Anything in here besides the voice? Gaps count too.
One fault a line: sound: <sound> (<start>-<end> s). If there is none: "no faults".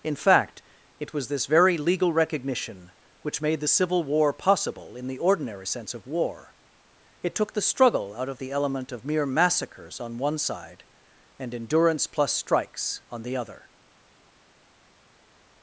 no faults